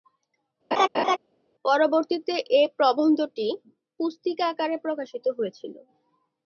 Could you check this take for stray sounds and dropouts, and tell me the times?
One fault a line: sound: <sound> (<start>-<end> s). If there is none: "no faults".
sound: laugh (0.7-1.2 s)